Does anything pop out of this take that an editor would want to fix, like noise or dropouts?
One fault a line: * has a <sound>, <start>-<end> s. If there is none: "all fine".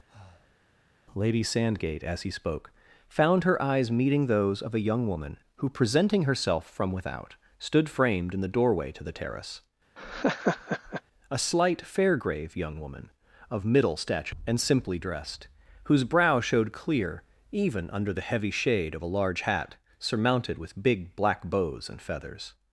* has a breath, 0.1-0.6 s
* has a laugh, 10.0-11.0 s